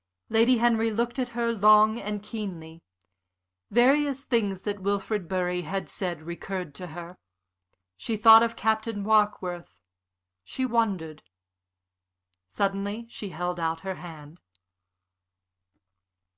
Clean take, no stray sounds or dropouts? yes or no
yes